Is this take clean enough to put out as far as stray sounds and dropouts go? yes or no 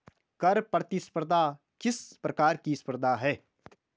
yes